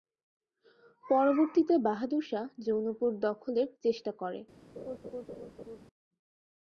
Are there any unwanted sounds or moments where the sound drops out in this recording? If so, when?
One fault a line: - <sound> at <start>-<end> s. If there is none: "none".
- laugh at 4.8-5.8 s